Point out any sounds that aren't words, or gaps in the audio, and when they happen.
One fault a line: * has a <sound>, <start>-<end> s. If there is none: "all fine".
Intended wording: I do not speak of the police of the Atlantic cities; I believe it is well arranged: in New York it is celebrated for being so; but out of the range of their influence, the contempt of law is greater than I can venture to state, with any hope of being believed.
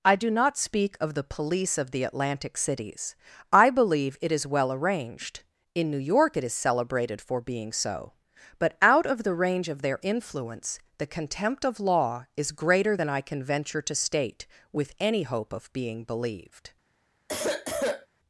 * has a sniff, 17.3-18.1 s